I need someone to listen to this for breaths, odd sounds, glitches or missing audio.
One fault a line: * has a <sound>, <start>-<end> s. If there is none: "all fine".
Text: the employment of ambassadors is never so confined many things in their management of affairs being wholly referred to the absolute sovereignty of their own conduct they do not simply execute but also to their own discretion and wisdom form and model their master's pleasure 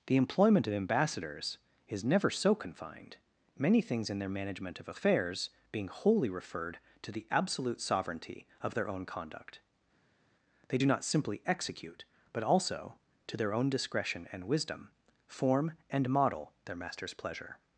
all fine